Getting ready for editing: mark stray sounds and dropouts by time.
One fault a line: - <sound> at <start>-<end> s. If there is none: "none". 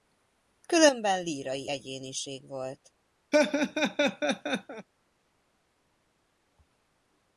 - laugh at 3.3-4.9 s